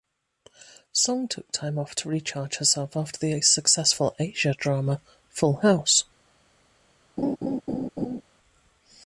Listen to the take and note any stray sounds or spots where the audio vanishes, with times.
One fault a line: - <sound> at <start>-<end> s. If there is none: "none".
- laugh at 7.2-8.2 s